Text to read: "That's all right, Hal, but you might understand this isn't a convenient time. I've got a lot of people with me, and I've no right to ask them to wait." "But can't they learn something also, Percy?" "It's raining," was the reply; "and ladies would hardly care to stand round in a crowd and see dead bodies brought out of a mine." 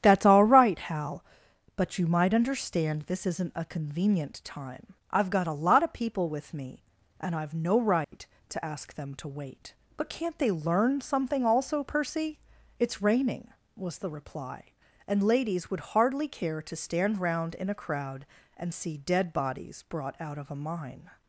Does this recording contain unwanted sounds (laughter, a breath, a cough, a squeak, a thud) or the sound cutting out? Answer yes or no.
yes